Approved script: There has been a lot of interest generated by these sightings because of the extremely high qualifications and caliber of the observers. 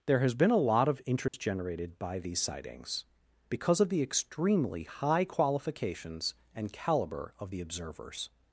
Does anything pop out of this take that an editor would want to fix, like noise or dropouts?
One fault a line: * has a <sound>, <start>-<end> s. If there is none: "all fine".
* has a dropout, 1.3-1.3 s